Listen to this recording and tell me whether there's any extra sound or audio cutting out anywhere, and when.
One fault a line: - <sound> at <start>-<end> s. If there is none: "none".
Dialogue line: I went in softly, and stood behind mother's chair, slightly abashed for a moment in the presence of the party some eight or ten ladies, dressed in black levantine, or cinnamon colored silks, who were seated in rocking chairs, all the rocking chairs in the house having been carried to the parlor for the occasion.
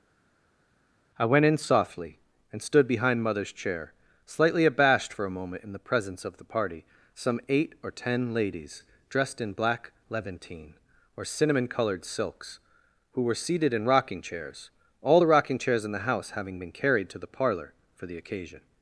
none